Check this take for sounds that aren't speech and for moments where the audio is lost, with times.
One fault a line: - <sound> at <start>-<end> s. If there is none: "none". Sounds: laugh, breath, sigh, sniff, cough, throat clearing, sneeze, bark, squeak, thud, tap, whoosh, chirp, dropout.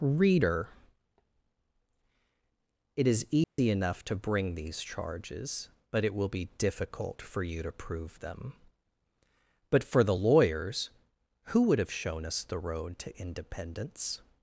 - dropout at 3.4-3.6 s